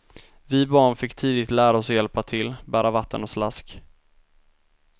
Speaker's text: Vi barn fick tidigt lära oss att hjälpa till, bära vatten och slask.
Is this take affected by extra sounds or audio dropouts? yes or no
no